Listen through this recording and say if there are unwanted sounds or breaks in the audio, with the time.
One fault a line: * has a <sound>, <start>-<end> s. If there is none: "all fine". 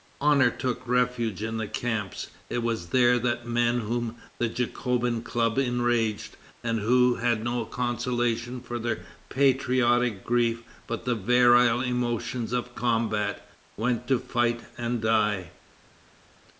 all fine